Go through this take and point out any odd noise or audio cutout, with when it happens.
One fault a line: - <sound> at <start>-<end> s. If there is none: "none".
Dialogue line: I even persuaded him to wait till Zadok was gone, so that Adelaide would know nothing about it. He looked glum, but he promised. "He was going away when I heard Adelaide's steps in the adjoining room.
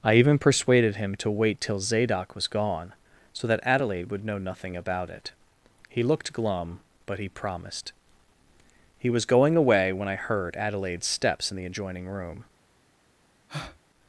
- breath at 13.5-13.8 s